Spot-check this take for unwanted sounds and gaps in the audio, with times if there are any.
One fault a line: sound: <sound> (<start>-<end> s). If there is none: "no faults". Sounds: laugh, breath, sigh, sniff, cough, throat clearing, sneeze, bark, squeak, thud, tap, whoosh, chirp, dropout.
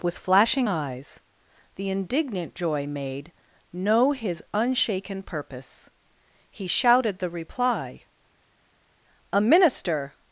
no faults